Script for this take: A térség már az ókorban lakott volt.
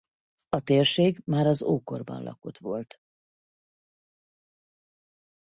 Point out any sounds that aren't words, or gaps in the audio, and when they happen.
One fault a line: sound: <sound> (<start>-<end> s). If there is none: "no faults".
no faults